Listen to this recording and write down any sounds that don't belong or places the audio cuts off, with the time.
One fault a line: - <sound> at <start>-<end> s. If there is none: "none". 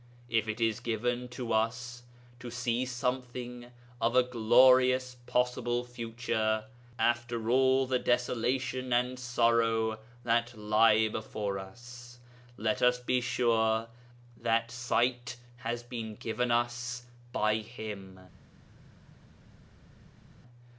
none